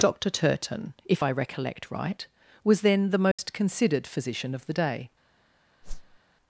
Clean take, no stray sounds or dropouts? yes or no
no